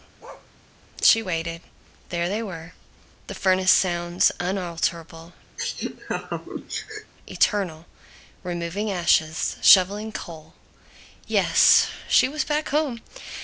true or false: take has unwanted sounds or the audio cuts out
true